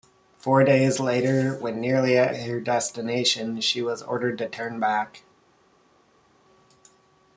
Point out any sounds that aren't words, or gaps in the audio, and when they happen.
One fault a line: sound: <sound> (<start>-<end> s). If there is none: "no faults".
no faults